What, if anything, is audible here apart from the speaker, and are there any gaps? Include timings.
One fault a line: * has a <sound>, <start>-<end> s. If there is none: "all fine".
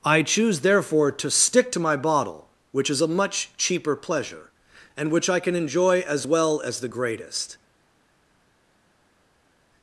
all fine